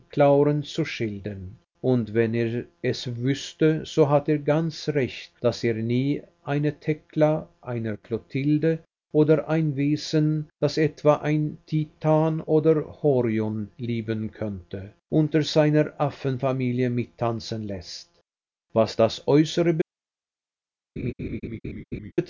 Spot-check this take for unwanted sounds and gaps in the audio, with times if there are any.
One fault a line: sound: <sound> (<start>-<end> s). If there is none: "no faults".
sound: laugh (21.0-22.1 s)